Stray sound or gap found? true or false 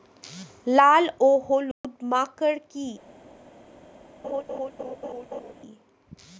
true